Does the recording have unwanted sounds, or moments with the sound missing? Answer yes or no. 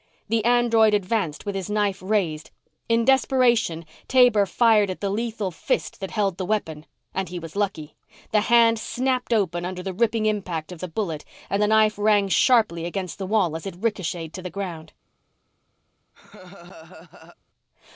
yes